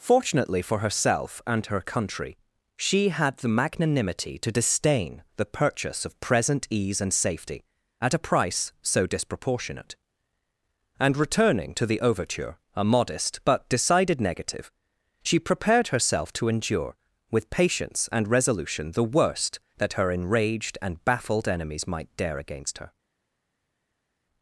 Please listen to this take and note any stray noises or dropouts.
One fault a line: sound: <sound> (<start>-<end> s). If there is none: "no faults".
no faults